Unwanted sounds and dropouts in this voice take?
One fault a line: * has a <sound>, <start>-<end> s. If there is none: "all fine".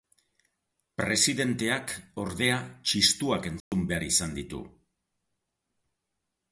* has a dropout, 3.6-3.7 s